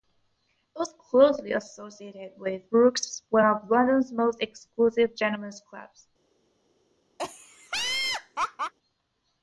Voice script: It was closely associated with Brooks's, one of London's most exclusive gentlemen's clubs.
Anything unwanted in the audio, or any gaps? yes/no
yes